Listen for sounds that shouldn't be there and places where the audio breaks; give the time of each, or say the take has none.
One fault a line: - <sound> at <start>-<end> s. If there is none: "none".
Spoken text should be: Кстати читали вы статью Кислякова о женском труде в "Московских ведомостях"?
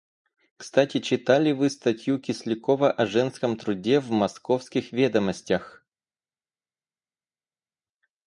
none